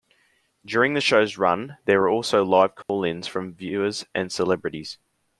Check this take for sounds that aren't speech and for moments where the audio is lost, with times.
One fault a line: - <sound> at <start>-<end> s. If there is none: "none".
- dropout at 2.8-2.9 s